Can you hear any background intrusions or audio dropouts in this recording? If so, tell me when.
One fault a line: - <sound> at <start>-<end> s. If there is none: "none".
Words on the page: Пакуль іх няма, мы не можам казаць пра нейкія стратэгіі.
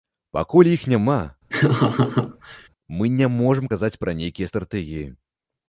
- laugh at 1.5-2.7 s